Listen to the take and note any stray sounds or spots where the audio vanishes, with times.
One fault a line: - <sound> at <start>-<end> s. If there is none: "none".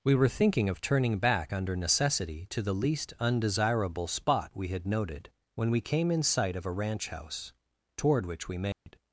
- dropout at 8.7-8.9 s